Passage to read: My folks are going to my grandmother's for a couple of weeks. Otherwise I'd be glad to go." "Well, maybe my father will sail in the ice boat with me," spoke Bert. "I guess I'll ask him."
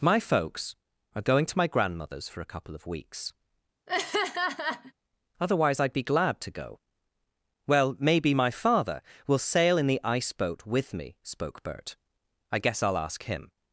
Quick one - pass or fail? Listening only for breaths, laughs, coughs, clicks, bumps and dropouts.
fail